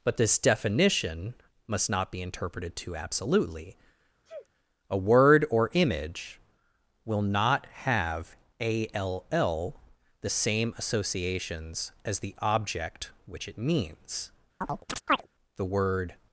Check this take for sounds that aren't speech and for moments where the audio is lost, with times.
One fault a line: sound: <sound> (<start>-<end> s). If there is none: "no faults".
sound: sneeze (4.3-4.5 s)
sound: chirp (14.6-15.3 s)